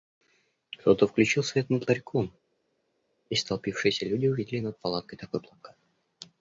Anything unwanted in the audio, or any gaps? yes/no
no